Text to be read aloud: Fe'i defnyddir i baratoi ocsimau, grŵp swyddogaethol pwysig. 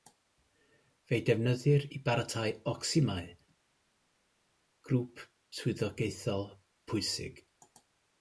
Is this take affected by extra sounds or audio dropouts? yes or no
no